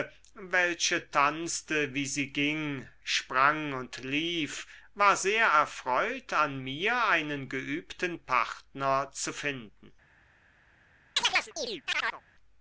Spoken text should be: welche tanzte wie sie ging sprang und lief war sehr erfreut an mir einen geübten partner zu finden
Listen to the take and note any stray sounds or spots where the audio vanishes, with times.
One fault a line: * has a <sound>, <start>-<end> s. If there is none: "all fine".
* has a chirp, 11.2-12.2 s